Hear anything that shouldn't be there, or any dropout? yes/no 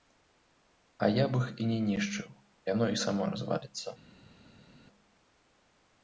no